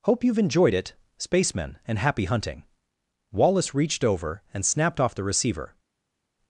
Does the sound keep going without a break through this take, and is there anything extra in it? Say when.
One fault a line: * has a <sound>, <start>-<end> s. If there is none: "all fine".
all fine